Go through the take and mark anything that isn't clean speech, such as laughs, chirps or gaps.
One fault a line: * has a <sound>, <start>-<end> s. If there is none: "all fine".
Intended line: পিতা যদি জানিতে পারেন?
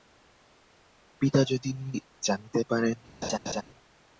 * has a laugh, 3.2-3.6 s